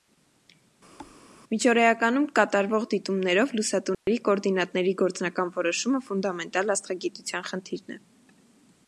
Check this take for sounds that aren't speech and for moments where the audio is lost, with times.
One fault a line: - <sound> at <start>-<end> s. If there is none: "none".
- thud at 1.0-1.2 s
- dropout at 3.9-4.1 s